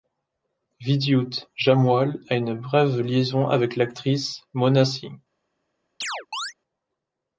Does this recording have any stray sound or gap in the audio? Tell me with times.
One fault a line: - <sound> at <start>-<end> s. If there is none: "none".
- chirp at 6.0-6.5 s